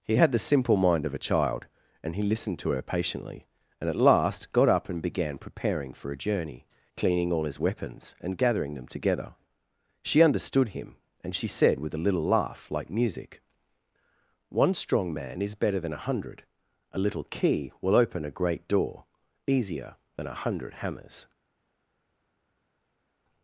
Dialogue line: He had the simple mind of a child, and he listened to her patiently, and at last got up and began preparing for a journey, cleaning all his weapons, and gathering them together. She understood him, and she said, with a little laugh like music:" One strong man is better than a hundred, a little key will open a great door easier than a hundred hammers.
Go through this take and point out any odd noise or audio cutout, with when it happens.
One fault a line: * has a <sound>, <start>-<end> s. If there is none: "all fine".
all fine